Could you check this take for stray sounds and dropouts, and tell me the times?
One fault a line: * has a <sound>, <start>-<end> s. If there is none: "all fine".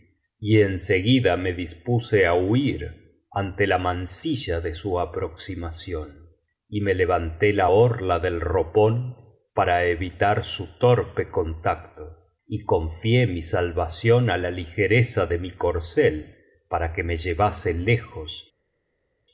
all fine